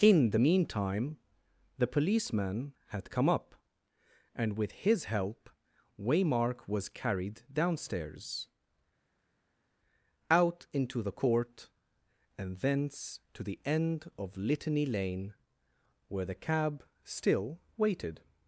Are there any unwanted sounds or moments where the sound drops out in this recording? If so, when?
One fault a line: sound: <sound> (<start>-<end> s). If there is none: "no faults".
no faults